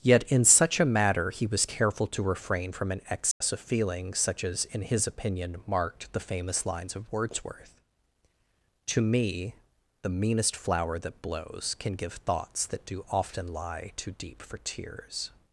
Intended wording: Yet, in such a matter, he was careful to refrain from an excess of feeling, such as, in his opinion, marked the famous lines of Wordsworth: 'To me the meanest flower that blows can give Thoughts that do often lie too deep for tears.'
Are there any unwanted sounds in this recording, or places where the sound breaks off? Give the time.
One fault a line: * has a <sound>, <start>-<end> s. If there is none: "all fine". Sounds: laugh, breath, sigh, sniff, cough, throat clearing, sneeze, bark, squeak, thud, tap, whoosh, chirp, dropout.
* has a dropout, 3.3-3.4 s